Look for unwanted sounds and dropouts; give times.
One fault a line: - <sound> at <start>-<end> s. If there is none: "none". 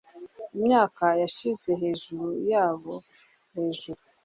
none